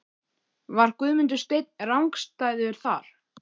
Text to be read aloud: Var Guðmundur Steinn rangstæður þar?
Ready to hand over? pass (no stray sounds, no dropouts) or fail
pass